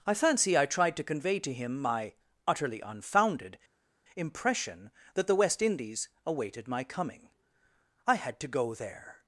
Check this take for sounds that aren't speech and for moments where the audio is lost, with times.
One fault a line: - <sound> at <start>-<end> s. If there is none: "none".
none